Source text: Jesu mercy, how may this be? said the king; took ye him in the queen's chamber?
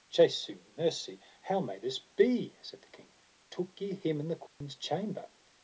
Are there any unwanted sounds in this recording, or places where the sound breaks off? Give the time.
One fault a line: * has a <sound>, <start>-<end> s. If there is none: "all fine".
* has a dropout, 4.5-4.6 s